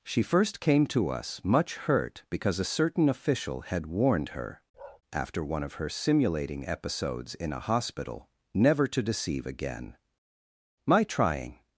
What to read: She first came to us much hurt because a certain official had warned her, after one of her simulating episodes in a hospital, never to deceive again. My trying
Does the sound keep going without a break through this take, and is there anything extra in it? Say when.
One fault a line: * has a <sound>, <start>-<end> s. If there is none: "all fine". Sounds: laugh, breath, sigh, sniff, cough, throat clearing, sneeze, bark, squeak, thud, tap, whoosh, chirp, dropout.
* has a bark, 4.7-5.0 s